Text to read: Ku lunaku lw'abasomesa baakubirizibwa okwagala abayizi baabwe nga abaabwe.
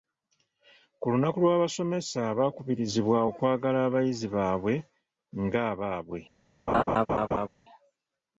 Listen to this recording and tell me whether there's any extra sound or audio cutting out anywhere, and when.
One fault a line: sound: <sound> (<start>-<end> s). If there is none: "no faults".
sound: laugh (6.7-7.5 s)